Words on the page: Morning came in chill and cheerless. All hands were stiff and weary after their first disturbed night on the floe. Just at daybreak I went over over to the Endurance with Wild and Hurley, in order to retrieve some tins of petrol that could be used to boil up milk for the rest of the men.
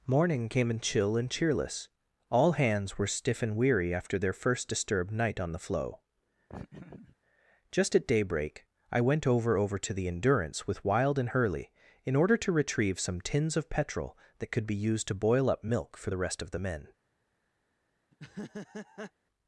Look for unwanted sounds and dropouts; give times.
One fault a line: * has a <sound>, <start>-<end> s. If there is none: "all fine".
* has a laugh, 6.5-7.2 s
* has a laugh, 18.1-19.1 s